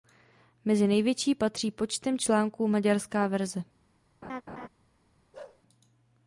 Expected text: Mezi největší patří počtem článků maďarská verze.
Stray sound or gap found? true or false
true